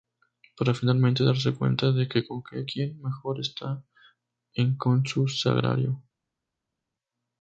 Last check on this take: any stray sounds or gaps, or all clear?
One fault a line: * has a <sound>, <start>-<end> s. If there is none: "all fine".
all fine